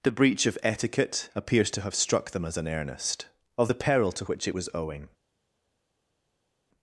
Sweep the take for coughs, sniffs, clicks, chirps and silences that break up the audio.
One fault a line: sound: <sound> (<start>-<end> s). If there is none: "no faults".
no faults